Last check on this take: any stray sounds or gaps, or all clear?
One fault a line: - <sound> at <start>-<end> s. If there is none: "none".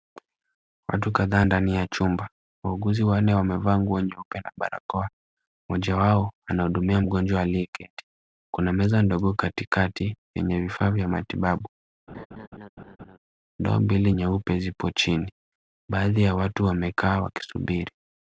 - laugh at 12.1-13.2 s